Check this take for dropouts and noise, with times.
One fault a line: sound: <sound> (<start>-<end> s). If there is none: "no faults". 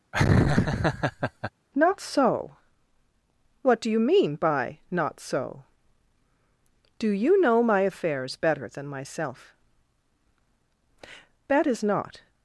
sound: laugh (0.1-1.5 s)